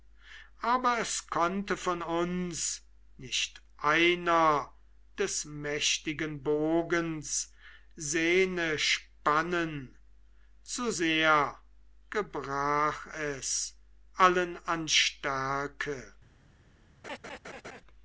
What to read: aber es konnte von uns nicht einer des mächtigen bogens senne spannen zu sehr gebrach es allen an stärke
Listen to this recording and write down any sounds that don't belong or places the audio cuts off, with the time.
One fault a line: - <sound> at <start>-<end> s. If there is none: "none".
- laugh at 17.0-17.8 s